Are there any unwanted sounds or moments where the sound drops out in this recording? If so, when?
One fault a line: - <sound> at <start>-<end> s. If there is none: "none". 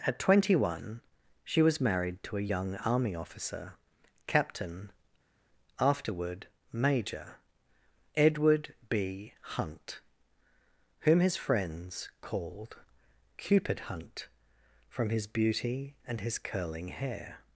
none